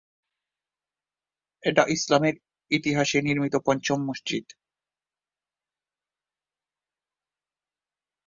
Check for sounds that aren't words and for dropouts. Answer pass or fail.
pass